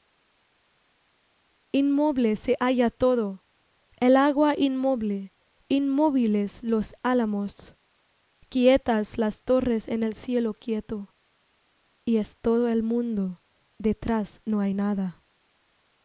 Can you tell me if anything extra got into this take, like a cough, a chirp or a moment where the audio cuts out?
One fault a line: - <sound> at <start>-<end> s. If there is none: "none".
none